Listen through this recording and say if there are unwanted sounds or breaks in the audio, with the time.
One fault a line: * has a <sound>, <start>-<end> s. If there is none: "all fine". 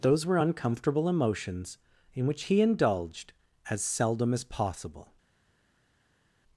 all fine